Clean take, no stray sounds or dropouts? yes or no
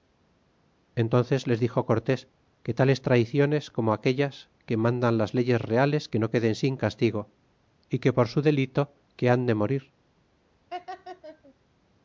no